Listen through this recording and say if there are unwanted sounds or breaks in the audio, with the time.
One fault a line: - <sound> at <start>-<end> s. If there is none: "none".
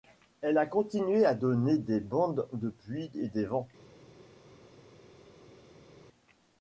none